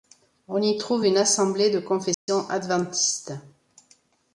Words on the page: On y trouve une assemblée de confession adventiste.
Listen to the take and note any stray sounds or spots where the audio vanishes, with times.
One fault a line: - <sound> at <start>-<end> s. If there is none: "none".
- dropout at 2.1-2.3 s